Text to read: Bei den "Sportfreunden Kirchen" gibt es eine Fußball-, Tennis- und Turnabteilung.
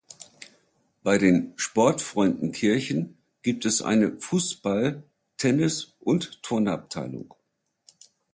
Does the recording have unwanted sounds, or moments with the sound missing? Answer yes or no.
no